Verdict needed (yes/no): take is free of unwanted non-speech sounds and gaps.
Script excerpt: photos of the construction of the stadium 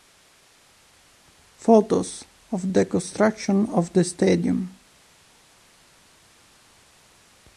yes